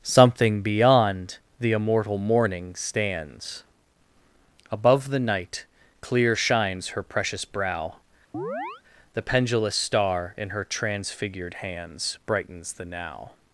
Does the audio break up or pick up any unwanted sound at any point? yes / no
yes